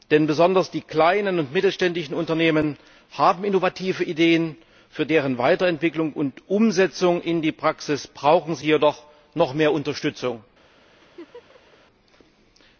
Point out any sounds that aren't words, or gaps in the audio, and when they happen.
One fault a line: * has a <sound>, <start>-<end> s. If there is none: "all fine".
* has a laugh, 11.0-11.8 s